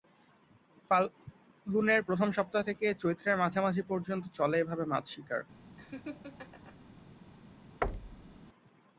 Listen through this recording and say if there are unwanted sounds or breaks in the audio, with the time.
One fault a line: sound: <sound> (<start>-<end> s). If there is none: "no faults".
sound: laugh (5.8-6.8 s)
sound: thud (7.8-8.4 s)